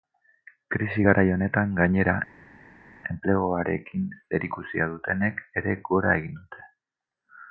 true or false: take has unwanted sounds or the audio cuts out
false